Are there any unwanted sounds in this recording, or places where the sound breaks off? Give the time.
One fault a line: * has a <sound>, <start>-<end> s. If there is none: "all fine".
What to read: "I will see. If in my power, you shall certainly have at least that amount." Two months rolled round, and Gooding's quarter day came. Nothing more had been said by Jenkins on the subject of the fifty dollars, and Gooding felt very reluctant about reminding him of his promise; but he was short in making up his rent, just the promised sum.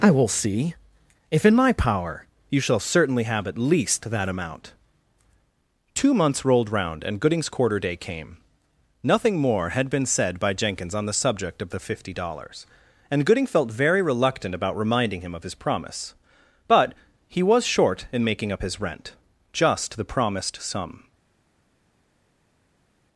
all fine